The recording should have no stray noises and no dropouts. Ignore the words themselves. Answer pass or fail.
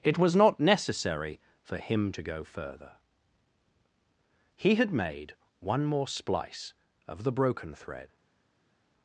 pass